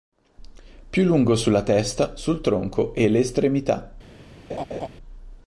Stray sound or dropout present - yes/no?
yes